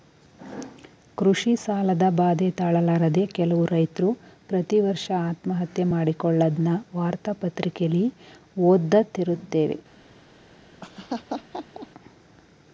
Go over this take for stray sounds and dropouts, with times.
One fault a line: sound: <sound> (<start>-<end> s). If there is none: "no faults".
sound: laugh (10.8-11.9 s)